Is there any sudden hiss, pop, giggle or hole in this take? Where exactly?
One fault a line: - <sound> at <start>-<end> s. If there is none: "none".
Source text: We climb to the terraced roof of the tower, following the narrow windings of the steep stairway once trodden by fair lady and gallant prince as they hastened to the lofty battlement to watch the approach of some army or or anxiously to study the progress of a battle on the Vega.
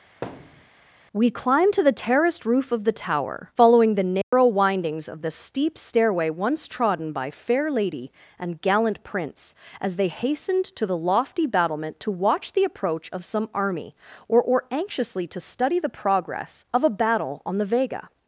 - thud at 0.2-0.7 s
- dropout at 4.2-4.3 s